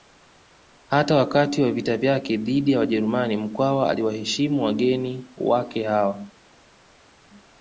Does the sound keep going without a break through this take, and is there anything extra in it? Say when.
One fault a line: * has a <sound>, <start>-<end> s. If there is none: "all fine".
all fine